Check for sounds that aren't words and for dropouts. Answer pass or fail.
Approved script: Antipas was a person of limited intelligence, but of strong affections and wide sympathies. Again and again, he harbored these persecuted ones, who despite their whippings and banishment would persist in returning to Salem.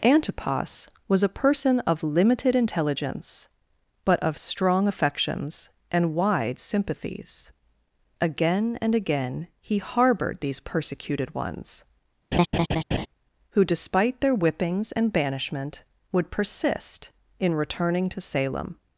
fail